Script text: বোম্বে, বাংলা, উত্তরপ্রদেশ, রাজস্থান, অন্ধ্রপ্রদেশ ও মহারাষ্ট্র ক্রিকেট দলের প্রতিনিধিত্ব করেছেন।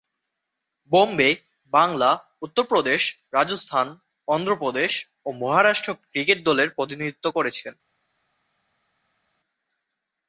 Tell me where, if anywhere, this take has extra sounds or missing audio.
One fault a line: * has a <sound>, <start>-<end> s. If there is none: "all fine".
all fine